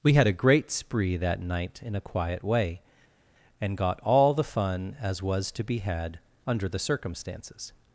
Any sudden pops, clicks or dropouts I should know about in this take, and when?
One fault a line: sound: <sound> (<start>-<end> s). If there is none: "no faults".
no faults